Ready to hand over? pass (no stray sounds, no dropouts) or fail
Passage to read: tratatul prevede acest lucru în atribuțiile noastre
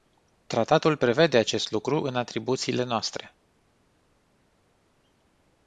pass